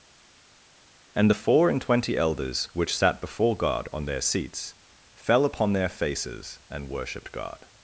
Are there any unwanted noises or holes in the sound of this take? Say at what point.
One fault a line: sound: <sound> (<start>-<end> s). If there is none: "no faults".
no faults